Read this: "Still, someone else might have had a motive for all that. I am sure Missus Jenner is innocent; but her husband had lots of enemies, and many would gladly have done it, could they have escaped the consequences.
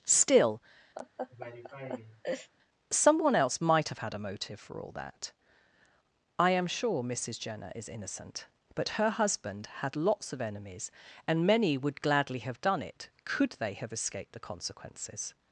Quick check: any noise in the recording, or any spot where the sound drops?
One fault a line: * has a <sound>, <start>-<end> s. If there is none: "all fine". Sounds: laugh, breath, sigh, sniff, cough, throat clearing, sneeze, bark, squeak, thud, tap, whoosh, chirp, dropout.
* has a laugh, 1.0-2.5 s